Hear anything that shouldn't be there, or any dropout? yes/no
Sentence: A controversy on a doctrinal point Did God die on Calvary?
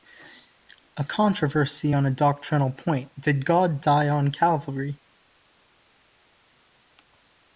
no